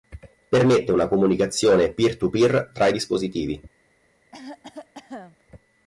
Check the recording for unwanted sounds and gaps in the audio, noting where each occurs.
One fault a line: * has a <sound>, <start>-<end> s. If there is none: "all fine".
* has a cough, 4.3-5.4 s